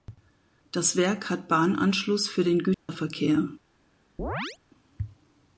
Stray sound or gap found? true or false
true